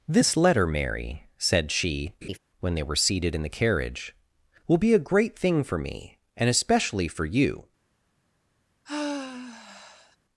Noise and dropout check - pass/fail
fail